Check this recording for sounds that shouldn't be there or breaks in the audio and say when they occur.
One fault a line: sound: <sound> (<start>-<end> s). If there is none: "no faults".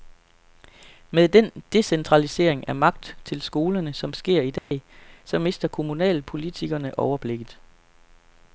sound: dropout (4.6-4.7 s)